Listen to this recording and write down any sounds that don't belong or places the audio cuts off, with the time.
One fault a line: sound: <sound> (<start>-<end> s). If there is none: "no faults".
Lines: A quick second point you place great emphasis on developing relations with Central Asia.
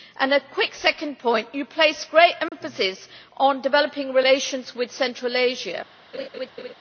sound: dropout (2.5-2.5 s)
sound: laugh (6.1-6.7 s)